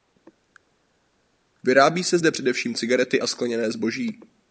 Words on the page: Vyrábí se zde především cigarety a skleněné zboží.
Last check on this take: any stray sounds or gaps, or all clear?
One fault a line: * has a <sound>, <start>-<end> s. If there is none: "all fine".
all fine